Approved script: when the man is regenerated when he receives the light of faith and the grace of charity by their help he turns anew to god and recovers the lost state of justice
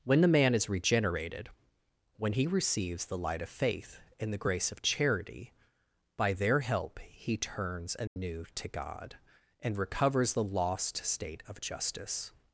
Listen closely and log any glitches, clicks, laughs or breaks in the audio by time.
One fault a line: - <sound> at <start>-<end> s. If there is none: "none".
- dropout at 8.1-8.2 s